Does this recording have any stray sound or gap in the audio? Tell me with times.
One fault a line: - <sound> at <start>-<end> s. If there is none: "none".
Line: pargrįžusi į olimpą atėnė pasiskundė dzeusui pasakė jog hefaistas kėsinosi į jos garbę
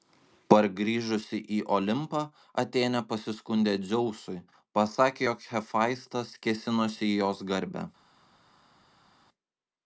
none